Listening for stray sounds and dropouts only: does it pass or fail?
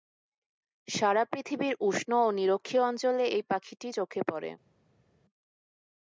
pass